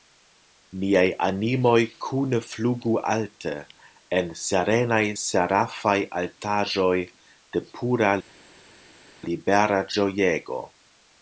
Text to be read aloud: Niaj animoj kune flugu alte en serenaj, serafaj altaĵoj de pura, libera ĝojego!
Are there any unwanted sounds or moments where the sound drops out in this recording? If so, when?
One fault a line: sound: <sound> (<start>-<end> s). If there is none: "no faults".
no faults